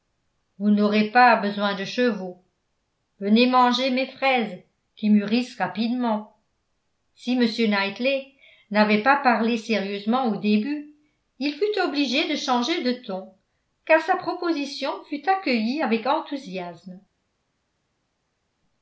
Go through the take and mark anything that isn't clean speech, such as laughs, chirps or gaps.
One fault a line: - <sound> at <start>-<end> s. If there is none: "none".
none